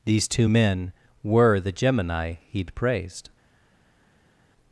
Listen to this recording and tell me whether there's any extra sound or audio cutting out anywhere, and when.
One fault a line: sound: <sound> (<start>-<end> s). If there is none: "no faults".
no faults